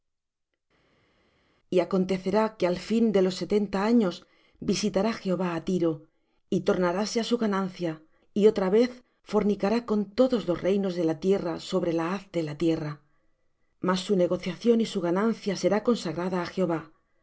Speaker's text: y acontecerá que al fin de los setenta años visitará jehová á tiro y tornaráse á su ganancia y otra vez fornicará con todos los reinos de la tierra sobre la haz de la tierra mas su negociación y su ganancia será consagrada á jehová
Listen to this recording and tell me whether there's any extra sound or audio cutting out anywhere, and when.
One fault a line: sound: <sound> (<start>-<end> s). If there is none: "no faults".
no faults